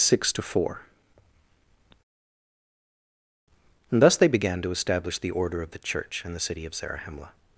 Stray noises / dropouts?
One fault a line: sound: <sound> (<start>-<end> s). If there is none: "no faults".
no faults